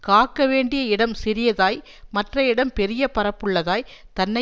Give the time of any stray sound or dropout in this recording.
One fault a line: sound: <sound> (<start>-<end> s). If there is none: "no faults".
no faults